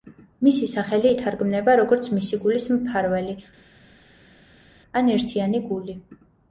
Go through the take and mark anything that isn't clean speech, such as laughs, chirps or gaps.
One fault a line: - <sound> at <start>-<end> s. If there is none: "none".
none